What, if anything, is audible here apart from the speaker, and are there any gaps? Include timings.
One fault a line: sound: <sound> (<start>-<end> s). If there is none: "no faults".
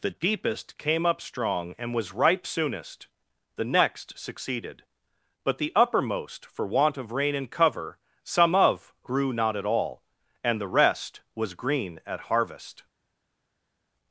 no faults